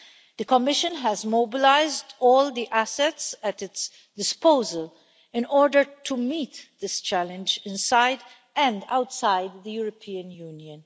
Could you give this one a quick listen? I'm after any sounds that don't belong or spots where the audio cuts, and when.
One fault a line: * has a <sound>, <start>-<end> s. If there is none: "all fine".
all fine